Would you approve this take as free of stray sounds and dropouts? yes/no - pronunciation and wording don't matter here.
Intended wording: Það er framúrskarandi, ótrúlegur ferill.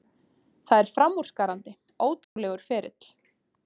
no